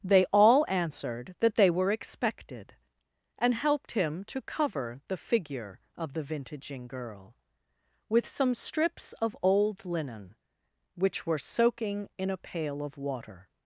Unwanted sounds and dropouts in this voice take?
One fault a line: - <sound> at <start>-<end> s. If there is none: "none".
none